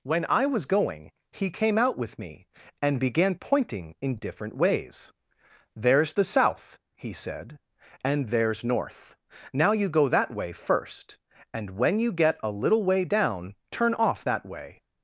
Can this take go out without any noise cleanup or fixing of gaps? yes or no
yes